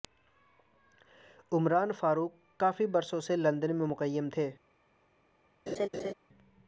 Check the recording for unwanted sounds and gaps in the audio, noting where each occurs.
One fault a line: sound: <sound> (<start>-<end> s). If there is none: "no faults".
sound: laugh (5.7-6.1 s)